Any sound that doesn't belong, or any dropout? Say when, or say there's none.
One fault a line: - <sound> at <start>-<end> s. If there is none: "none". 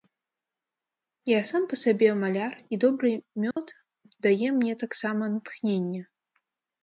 - dropout at 3.5-3.6 s